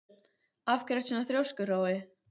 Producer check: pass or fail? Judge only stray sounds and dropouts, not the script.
pass